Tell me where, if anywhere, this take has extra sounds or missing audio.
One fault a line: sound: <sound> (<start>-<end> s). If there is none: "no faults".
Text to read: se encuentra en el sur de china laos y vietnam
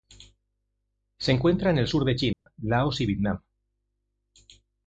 sound: dropout (2.3-2.5 s)